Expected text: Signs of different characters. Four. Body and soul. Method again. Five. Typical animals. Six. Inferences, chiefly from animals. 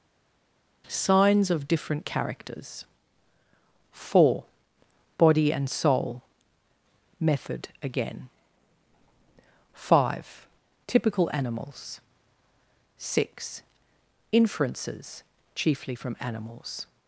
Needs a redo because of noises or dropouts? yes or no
no